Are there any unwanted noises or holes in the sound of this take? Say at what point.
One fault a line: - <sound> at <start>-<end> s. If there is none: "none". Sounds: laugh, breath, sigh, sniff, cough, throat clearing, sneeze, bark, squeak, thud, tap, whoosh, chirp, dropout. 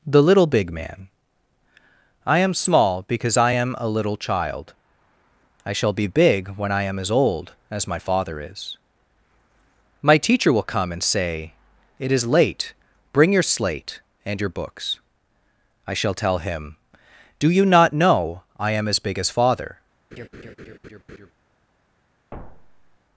- laugh at 20.1-21.3 s
- thud at 22.3-23.0 s